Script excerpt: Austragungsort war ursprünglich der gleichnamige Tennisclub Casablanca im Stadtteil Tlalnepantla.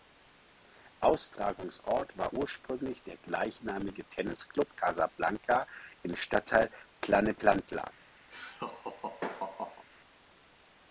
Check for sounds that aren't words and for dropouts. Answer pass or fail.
fail